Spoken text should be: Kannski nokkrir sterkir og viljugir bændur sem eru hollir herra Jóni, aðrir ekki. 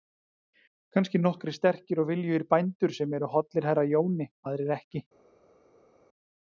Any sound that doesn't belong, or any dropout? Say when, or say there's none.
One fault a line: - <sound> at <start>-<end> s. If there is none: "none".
none